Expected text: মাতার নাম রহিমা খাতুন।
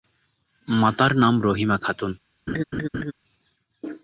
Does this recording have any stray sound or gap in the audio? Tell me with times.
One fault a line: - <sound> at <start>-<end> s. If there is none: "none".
- laugh at 2.5-3.1 s